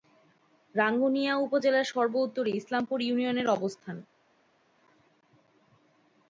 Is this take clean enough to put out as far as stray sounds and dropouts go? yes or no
yes